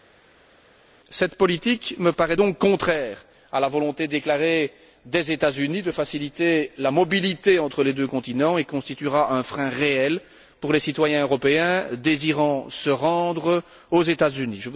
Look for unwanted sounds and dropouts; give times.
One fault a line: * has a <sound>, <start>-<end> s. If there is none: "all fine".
all fine